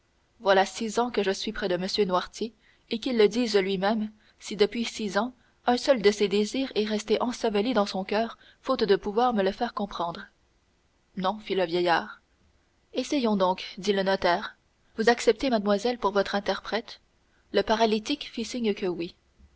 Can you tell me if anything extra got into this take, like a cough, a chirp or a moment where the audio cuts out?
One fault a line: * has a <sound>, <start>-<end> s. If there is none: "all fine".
all fine